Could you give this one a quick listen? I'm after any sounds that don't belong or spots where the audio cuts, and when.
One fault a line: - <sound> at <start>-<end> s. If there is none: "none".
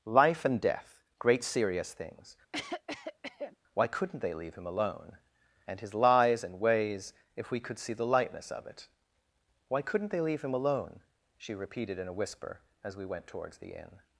- cough at 2.5-3.6 s